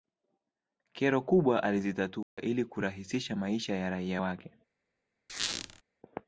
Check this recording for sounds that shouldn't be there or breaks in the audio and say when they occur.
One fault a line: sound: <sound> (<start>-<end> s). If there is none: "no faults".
sound: dropout (2.2-2.4 s)
sound: squeak (5.3-5.8 s)